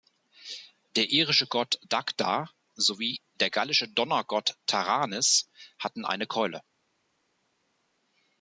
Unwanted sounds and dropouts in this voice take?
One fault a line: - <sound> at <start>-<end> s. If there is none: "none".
none